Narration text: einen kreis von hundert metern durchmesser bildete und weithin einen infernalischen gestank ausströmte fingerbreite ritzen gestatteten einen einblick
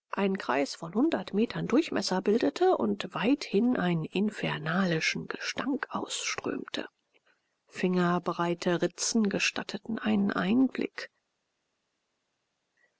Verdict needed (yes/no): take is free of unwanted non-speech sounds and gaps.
yes